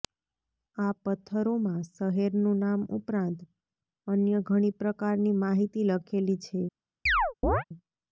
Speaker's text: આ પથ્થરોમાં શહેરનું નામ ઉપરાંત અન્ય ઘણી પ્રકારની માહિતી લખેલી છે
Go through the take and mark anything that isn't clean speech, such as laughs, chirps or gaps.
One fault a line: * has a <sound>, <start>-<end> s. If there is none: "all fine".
* has a chirp, 7.1-7.6 s